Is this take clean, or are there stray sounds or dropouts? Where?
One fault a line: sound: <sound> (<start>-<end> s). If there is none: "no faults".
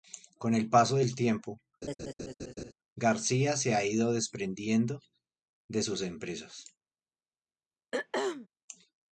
sound: laugh (1.8-2.7 s)
sound: throat clearing (7.9-8.5 s)